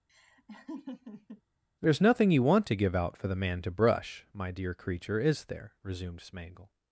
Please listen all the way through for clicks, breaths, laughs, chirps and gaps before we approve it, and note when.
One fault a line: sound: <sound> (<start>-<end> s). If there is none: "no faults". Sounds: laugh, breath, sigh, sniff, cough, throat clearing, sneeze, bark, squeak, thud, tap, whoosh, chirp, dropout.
sound: laugh (0.1-1.4 s)